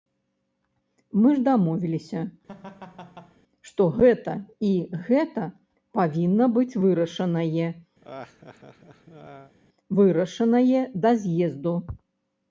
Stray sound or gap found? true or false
true